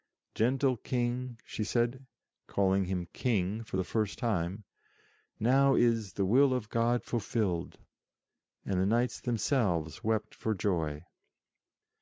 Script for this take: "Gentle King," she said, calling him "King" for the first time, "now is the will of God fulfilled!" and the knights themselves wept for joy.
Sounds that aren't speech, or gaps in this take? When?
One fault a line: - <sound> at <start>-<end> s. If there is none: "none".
none